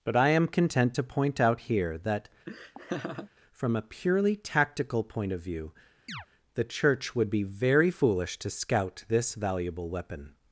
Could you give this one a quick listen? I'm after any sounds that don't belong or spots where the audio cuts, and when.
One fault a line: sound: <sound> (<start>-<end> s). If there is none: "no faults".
sound: laugh (2.5-3.3 s)
sound: chirp (6.1-6.3 s)